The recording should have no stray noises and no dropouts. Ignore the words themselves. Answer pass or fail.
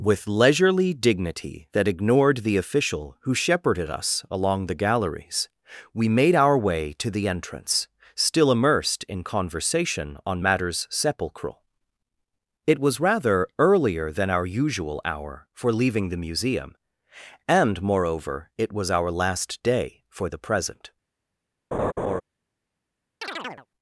fail